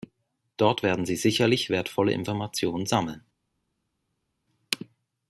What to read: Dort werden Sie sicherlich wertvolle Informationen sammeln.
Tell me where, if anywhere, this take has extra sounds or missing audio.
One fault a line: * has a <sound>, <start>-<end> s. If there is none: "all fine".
all fine